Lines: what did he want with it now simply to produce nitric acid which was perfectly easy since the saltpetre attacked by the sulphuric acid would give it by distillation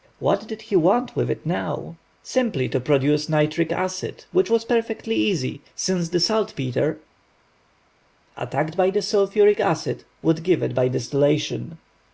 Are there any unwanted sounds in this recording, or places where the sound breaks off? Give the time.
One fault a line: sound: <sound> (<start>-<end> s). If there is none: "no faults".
no faults